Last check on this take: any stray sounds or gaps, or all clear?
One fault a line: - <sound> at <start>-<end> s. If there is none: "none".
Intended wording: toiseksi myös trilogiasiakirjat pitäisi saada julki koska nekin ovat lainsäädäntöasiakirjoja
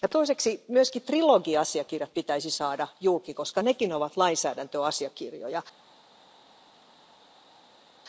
none